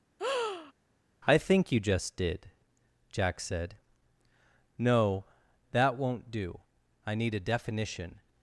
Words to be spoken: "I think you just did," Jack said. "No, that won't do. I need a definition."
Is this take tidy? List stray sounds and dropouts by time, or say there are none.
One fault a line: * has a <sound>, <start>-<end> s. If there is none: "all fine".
* has a breath, 0.2-0.7 s